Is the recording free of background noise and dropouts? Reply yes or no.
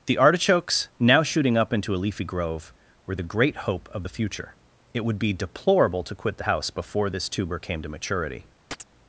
no